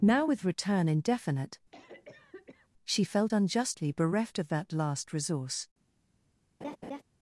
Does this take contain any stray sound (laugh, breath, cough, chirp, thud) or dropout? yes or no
yes